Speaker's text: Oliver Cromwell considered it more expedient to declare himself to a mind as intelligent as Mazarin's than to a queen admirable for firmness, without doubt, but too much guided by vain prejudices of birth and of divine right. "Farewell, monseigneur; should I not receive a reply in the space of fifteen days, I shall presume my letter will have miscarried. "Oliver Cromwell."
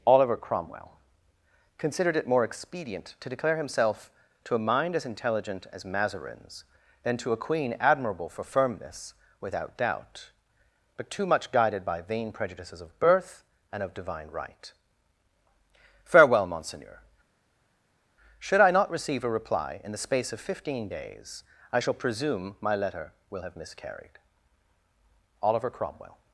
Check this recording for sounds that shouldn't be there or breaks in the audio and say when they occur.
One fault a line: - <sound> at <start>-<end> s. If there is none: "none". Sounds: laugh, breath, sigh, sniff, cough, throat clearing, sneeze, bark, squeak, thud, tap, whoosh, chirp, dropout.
none